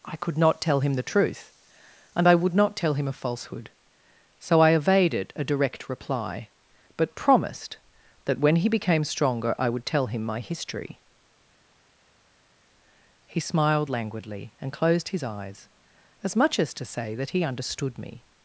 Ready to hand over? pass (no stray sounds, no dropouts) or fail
pass